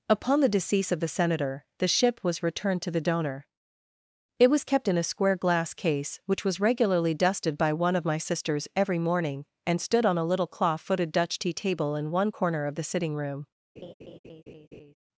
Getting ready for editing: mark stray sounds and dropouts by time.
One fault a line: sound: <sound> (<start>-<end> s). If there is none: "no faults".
sound: laugh (13.8-14.9 s)